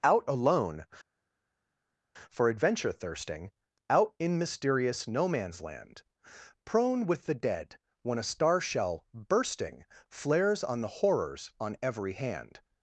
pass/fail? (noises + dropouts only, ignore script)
pass